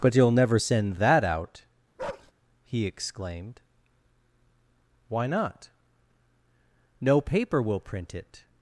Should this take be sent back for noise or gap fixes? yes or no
yes